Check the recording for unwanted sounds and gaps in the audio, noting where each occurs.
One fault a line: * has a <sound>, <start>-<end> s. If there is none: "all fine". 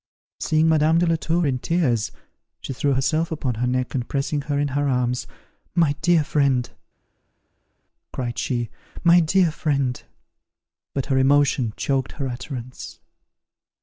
all fine